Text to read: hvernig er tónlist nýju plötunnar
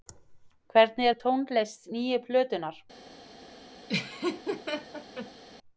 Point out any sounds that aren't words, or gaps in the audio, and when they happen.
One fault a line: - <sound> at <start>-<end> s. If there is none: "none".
- laugh at 3.9-5.4 s